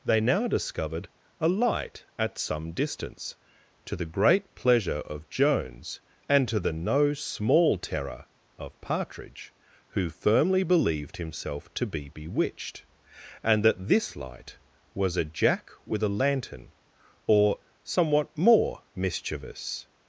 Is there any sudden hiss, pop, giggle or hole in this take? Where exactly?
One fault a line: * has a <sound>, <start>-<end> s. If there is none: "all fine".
all fine